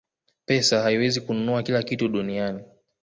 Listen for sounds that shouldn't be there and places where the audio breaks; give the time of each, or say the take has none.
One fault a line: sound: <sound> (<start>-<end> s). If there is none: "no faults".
no faults